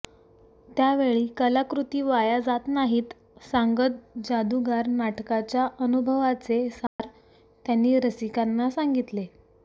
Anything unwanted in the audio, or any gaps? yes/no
yes